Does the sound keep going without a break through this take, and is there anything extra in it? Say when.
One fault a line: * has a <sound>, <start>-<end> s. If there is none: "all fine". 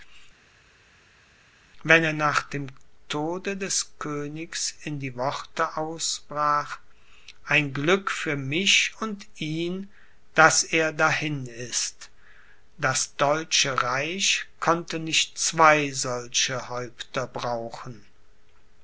all fine